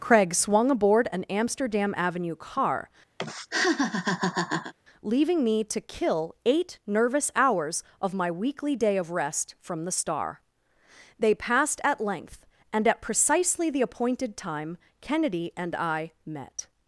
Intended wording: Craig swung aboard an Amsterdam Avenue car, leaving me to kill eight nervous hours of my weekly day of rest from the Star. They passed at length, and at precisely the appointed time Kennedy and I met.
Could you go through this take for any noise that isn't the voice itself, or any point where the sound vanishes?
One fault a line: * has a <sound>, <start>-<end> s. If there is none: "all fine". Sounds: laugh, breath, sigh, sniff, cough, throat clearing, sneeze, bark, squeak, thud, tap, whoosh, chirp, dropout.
* has a laugh, 3.2-4.7 s